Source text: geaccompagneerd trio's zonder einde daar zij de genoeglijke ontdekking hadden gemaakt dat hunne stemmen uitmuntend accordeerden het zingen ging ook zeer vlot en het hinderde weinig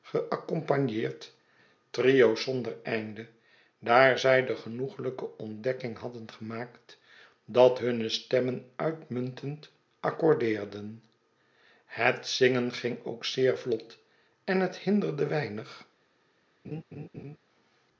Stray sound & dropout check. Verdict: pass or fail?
fail